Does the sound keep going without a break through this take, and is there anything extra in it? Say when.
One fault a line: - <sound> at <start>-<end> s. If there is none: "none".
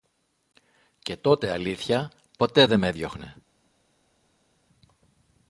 none